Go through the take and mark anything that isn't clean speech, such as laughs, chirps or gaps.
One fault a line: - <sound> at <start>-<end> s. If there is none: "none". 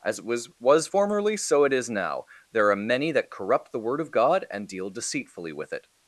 none